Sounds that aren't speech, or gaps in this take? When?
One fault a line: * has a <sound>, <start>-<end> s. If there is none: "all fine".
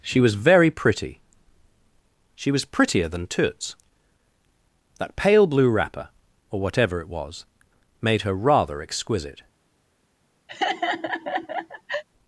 * has a laugh, 10.5-12.0 s